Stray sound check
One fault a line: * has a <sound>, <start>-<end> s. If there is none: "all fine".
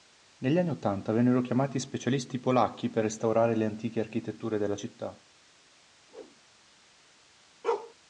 * has a whoosh, 6.1-6.4 s
* has a bark, 7.6-7.9 s